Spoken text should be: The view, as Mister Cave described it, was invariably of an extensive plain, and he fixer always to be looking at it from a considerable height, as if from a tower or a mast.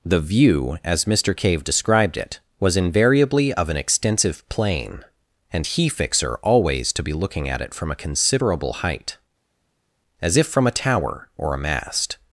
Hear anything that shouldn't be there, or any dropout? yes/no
no